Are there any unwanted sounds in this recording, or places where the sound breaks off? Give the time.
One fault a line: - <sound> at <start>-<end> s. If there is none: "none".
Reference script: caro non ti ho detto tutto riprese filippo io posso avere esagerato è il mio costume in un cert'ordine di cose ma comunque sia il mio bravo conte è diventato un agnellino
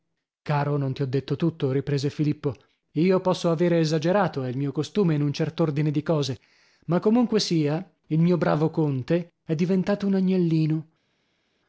none